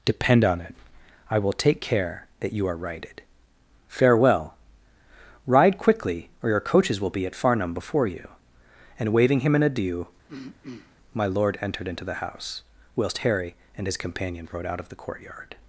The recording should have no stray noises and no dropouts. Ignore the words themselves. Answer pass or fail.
fail